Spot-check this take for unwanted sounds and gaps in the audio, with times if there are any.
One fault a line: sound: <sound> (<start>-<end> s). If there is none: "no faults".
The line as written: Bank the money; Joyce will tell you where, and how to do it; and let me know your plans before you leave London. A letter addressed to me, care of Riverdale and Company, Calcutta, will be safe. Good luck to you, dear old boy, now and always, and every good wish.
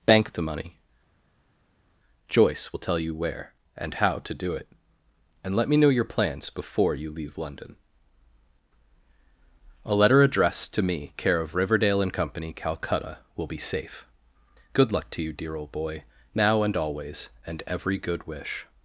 no faults